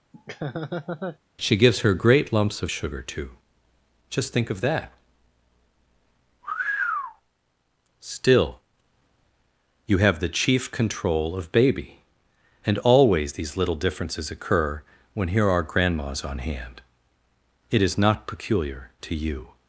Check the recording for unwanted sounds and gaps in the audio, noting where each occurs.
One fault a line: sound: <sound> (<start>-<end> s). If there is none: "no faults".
sound: laugh (0.1-1.2 s)